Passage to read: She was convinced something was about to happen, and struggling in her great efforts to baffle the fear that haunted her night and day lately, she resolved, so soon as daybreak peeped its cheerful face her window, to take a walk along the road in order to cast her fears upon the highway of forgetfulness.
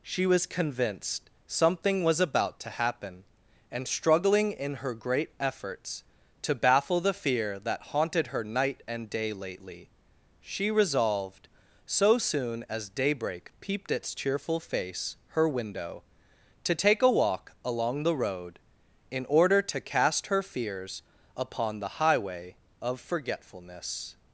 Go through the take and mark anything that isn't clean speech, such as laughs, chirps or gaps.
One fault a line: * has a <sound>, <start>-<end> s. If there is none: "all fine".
all fine